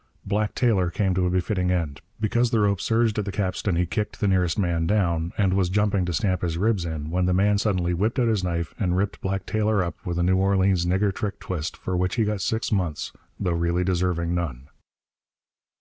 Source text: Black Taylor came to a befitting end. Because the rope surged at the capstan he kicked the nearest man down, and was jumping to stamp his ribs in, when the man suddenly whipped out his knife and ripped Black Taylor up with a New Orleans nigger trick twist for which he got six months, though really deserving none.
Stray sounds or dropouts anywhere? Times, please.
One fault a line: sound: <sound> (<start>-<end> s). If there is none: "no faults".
no faults